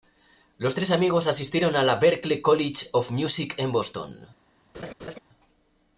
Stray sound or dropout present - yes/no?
yes